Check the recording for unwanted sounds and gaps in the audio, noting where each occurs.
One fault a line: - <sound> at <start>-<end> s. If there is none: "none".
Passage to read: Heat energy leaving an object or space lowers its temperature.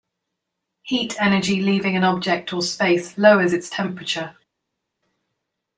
none